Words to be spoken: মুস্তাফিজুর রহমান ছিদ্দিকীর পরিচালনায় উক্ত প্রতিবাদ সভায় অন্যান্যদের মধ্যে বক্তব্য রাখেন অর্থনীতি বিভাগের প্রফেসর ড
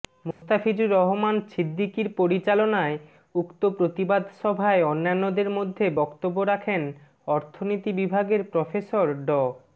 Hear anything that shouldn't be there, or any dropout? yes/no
yes